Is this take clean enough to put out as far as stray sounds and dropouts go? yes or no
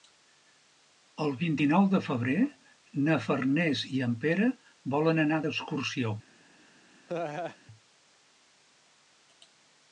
no